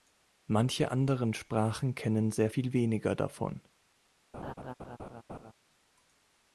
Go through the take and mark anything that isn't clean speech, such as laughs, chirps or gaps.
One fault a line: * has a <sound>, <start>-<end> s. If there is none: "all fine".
* has a laugh, 4.3-5.5 s